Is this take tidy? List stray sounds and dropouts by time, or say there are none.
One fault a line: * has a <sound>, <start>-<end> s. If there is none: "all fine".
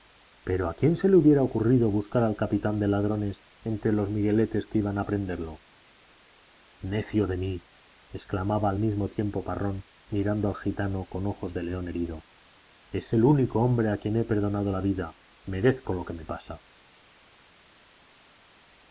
all fine